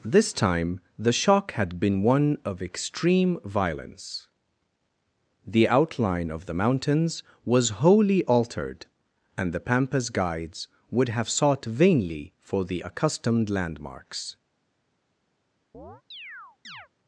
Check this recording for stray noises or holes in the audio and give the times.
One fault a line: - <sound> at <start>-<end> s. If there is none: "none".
- chirp at 15.7-16.9 s